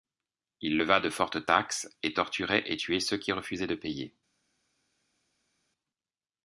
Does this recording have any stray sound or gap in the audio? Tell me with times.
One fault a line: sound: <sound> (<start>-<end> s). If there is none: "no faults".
no faults